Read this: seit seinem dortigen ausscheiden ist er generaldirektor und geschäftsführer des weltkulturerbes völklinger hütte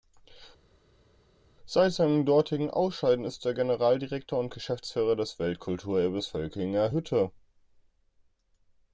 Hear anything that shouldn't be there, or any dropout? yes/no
no